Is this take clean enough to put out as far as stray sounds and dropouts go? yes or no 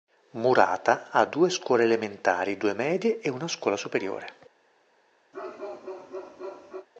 no